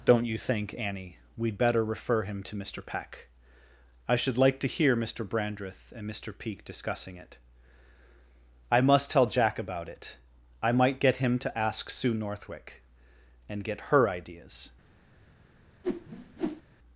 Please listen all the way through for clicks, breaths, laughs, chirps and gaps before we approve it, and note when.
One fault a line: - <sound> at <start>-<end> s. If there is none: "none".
- whoosh at 15.8-16.6 s